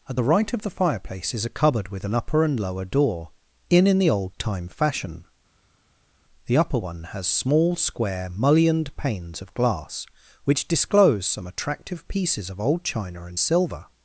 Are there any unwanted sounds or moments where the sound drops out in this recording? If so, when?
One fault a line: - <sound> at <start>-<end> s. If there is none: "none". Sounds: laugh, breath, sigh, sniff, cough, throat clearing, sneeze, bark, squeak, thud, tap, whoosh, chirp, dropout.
none